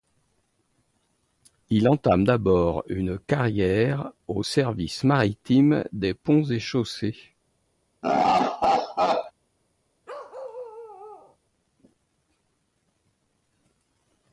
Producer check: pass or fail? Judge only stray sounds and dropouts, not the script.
fail